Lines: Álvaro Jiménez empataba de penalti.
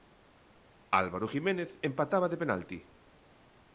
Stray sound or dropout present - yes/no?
no